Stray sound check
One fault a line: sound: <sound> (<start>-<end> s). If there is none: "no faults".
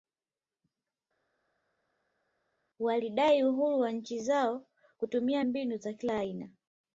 no faults